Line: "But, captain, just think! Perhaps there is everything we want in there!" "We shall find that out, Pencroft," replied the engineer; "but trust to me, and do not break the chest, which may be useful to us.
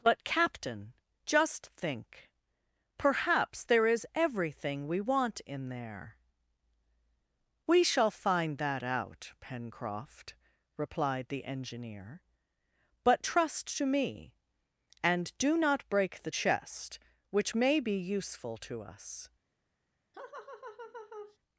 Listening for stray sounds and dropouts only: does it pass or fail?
fail